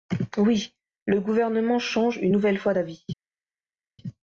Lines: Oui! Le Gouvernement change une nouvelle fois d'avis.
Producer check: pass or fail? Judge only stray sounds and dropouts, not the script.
pass